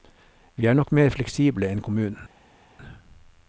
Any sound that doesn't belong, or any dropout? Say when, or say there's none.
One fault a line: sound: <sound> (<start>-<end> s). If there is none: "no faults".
no faults